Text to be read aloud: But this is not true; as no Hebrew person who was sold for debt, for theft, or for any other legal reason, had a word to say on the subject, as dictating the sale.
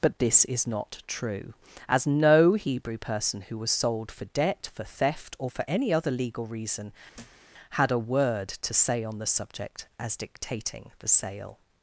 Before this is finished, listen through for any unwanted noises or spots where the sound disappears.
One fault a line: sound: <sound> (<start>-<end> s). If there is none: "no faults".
sound: thud (7.1-7.5 s)